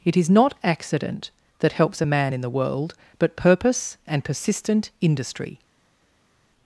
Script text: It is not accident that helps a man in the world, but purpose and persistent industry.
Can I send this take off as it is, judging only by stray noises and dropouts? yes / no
yes